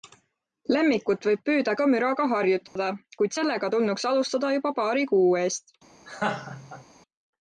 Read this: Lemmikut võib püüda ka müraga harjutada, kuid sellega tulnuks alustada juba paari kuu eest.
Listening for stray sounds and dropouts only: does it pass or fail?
fail